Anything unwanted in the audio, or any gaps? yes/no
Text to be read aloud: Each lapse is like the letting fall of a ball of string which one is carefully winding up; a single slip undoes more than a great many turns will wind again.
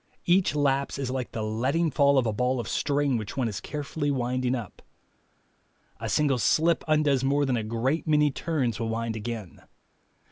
no